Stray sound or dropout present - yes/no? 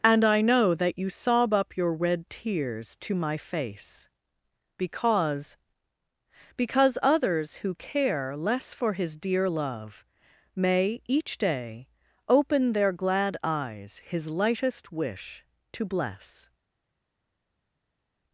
no